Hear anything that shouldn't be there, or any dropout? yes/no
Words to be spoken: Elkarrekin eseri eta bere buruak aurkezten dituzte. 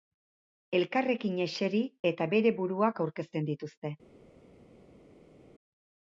no